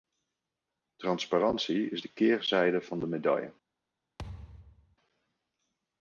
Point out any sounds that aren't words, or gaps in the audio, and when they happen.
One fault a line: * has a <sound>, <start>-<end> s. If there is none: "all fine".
* has a thud, 4.2-5.0 s